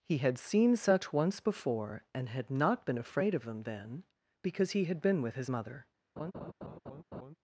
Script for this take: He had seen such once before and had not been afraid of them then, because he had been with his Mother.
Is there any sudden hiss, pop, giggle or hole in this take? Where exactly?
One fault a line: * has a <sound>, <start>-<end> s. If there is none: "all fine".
* has a laugh, 6.2-7.4 s